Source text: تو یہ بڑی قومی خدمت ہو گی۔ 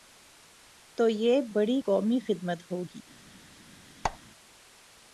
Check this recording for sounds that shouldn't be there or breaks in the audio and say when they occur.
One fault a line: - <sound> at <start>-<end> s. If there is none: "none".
- squeak at 4.0-4.2 s